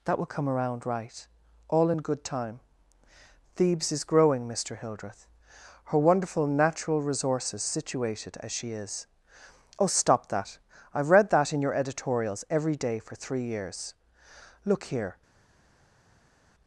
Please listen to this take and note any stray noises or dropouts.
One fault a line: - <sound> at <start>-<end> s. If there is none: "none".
none